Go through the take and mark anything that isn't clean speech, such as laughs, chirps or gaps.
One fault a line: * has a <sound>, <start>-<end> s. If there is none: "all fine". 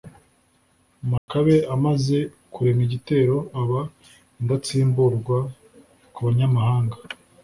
* has a dropout, 1.2-1.3 s